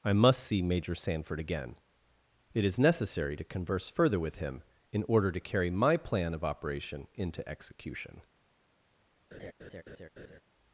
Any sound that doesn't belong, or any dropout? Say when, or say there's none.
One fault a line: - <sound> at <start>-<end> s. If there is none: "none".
- laugh at 9.3-10.4 s